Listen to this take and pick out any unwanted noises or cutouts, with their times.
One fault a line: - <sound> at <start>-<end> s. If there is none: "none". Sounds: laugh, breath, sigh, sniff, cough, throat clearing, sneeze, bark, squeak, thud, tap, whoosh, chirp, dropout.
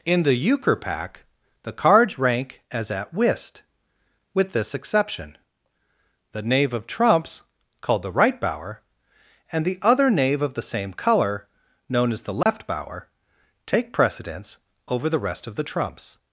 - dropout at 12.4-12.5 s